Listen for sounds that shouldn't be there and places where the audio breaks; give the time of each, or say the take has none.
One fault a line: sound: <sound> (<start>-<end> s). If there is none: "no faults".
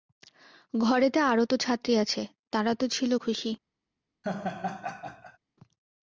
sound: laugh (4.2-5.4 s)